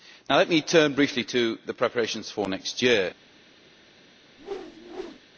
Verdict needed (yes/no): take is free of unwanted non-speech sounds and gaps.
no